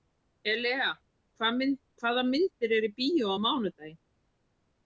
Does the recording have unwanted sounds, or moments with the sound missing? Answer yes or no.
no